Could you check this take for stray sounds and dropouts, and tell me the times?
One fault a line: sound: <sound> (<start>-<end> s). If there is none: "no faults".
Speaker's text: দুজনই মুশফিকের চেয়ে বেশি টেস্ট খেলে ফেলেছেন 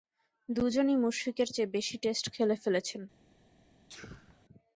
sound: sneeze (3.9-4.5 s)